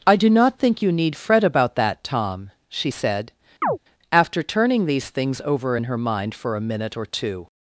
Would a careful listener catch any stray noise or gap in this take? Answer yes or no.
yes